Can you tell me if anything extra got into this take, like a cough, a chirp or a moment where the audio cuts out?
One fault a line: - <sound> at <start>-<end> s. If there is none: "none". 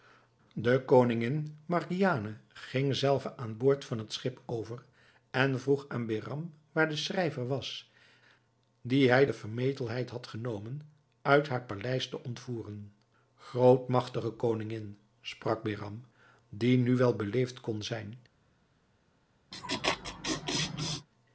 - laugh at 19.5-21.1 s